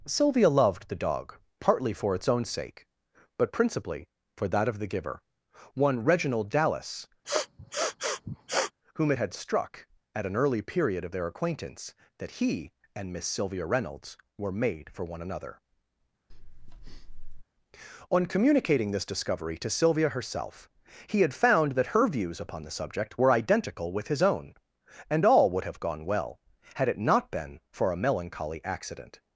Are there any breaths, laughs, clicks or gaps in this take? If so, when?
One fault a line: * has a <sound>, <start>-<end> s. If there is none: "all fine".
* has a sniff, 7.2-8.7 s
* has a breath, 16.3-17.4 s